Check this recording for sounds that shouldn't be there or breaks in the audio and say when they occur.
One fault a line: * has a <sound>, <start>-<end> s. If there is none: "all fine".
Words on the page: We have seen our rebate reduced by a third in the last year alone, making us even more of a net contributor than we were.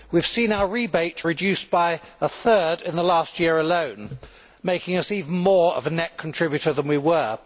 all fine